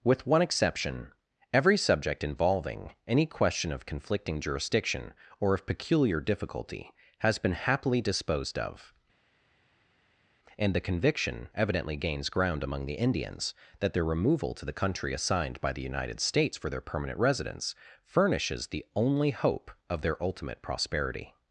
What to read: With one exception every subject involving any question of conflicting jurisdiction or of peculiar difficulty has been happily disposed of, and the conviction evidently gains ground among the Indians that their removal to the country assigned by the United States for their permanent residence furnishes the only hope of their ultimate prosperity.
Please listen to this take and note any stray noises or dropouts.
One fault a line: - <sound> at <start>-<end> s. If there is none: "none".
none